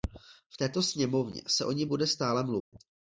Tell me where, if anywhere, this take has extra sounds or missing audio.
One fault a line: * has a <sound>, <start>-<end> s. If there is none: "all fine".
* has a dropout, 2.6-2.7 s